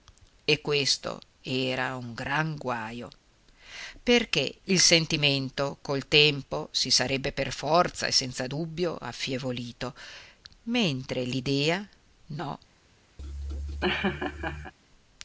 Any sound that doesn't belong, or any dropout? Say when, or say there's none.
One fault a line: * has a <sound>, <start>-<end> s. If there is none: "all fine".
* has a laugh, 13.2-14.7 s